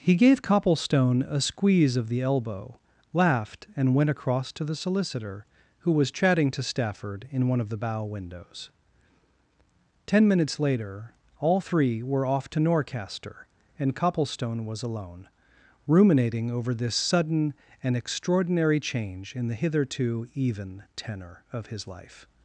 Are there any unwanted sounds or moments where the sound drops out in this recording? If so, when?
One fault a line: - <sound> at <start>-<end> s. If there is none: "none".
none